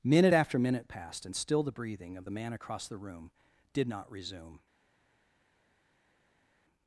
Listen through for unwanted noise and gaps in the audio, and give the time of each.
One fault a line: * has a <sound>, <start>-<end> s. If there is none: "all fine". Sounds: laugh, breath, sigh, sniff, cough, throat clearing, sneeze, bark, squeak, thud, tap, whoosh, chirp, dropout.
all fine